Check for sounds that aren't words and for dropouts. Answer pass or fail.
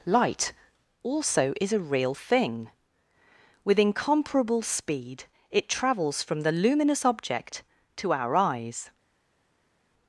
pass